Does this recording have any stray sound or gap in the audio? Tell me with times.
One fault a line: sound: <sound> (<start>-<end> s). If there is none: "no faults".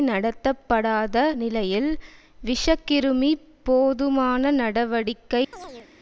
sound: chirp (5.5-5.9 s)